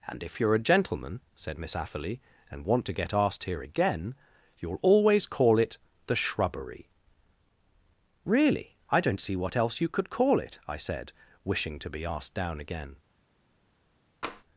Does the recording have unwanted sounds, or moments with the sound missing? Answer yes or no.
yes